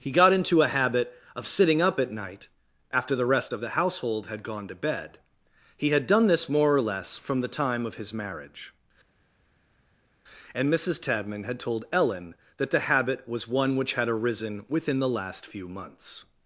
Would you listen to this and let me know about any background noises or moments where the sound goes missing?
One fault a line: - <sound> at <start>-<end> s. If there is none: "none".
none